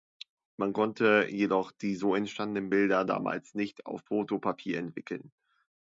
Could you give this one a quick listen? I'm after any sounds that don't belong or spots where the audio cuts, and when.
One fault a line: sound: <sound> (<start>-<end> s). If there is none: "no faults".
no faults